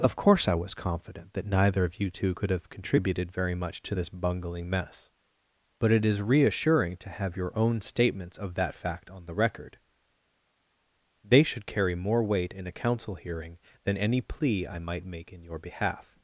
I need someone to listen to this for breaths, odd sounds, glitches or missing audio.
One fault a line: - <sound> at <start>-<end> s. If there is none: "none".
none